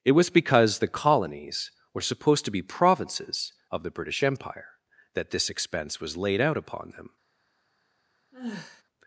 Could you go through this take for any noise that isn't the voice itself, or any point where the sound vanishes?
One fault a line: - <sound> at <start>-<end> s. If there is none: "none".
- sigh at 8.3-8.8 s